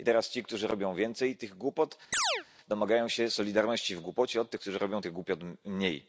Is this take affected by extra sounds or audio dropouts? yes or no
yes